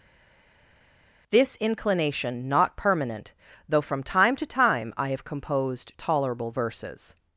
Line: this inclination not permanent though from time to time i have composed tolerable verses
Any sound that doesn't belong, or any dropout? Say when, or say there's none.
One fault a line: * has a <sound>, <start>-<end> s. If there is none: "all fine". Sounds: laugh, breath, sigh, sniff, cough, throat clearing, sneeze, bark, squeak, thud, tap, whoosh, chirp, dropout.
all fine